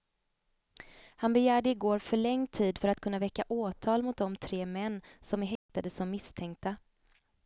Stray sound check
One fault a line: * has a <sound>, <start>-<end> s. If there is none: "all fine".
* has a dropout, 5.6-5.7 s